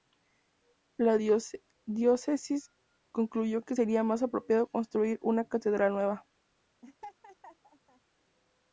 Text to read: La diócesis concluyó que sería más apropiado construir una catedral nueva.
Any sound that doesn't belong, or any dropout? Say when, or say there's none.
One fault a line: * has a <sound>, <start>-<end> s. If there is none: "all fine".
* has a laugh, 6.8-8.0 s